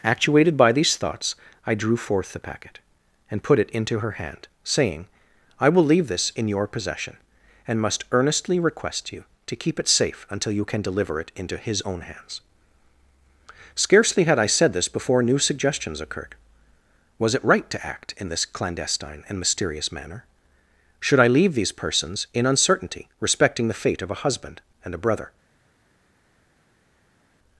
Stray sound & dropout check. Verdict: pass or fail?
pass